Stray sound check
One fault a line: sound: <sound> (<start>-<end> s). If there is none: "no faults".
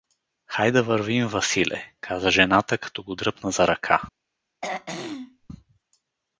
sound: throat clearing (4.6-5.5 s)